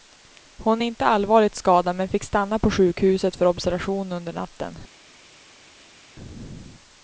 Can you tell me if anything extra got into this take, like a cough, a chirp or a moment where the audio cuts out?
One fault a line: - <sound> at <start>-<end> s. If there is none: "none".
none